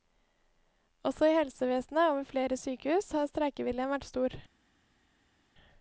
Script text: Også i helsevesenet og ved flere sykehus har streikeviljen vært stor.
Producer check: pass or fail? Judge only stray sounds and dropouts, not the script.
pass